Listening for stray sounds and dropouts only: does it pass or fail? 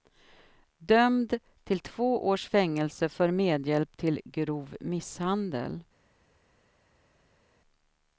pass